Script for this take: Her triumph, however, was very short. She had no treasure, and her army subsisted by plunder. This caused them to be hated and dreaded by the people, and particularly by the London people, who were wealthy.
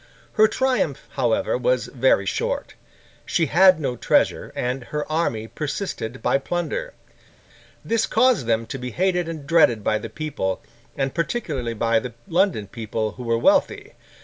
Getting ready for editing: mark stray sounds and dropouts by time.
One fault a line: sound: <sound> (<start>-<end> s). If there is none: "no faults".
no faults